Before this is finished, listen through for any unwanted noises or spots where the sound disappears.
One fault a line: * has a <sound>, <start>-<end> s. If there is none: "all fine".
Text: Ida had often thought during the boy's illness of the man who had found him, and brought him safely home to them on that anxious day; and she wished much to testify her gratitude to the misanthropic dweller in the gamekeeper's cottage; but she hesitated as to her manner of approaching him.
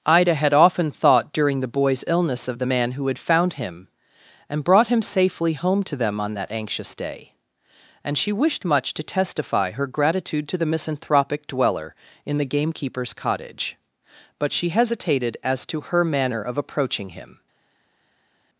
all fine